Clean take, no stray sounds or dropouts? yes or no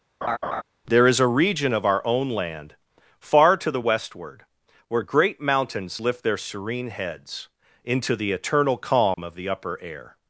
no